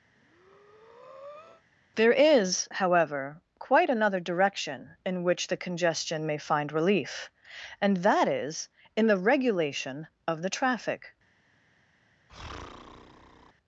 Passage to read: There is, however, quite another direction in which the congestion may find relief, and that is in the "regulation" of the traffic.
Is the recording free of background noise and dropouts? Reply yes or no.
no